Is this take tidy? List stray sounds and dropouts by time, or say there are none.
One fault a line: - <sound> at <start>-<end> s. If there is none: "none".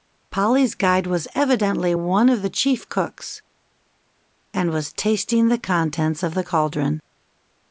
none